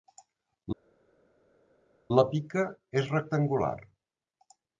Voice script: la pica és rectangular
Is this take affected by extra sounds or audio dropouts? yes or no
no